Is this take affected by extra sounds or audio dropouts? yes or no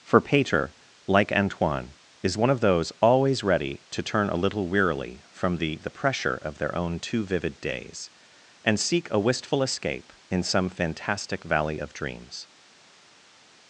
no